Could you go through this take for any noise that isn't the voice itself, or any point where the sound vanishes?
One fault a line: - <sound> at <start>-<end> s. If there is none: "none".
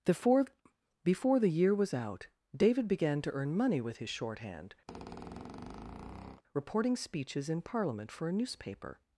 - squeak at 4.9-6.4 s